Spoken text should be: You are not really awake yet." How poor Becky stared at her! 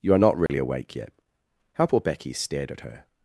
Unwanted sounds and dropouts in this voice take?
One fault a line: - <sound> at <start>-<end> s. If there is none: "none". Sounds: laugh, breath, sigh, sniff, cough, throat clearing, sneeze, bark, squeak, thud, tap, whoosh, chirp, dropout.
- dropout at 0.5-0.5 s